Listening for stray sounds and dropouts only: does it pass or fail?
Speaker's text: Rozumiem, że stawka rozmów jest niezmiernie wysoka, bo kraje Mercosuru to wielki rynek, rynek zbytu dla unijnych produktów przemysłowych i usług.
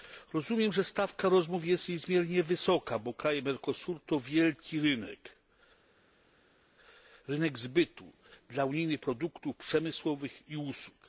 pass